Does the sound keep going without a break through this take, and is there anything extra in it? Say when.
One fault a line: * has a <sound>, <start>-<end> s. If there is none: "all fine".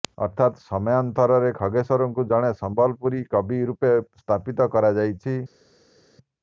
all fine